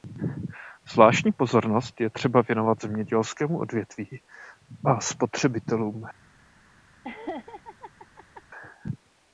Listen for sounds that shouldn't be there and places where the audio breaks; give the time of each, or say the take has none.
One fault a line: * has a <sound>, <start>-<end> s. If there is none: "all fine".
* has a laugh, 7.0-8.4 s